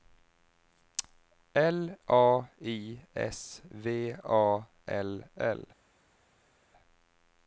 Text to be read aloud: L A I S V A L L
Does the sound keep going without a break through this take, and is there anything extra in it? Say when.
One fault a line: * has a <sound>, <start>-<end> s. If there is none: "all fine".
all fine